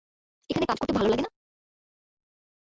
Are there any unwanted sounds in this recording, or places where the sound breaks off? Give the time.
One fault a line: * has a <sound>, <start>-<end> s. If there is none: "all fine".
all fine